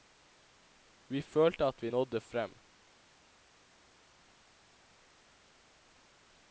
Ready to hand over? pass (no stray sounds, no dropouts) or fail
pass